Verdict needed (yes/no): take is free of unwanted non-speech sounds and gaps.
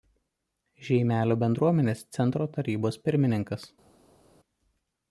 yes